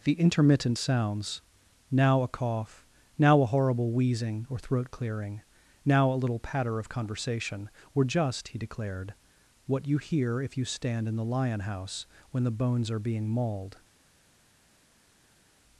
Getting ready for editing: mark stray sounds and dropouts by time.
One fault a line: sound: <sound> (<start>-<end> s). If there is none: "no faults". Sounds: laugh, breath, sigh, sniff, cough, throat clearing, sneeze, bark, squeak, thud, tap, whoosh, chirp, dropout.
no faults